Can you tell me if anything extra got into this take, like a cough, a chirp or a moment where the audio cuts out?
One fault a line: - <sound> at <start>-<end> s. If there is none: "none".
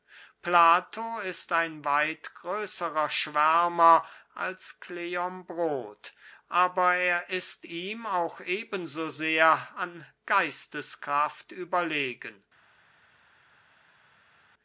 none